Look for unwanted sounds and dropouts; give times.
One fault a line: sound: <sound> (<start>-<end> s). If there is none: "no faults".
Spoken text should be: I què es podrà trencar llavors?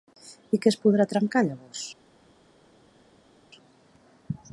no faults